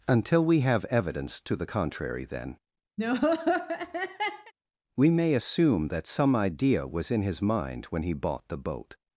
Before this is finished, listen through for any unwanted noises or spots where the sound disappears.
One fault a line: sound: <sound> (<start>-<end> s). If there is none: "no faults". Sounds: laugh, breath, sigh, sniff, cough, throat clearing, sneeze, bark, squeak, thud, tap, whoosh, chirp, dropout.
sound: laugh (3.0-4.5 s)